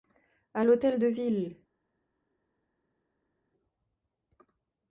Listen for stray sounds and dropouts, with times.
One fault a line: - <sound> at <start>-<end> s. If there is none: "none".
none